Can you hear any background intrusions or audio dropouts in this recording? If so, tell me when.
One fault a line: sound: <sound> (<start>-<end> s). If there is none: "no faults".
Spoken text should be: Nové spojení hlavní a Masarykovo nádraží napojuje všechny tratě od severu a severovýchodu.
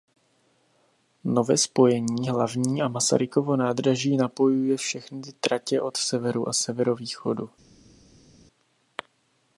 no faults